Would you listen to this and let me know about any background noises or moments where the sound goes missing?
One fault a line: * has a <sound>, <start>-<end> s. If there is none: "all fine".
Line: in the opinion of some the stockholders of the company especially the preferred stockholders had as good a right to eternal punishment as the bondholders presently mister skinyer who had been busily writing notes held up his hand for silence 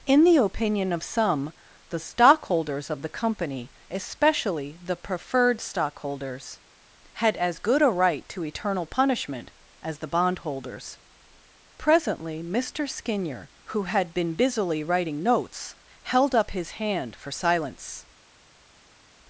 all fine